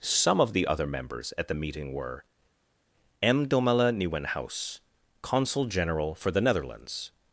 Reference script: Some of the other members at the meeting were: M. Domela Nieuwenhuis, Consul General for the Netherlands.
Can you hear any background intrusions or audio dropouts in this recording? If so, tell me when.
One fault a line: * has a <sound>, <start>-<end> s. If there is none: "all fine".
all fine